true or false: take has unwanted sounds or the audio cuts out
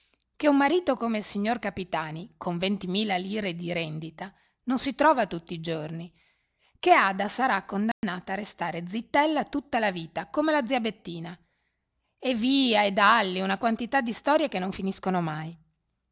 true